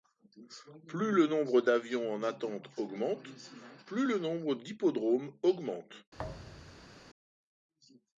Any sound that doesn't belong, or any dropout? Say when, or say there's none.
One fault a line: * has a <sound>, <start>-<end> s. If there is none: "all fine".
* has a thud, 6.2-7.0 s